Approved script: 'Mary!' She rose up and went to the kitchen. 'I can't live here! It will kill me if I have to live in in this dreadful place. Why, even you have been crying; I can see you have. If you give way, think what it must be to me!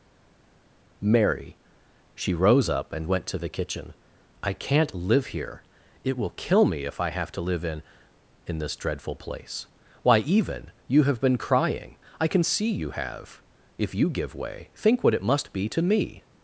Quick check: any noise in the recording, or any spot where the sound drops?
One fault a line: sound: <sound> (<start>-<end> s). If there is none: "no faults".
no faults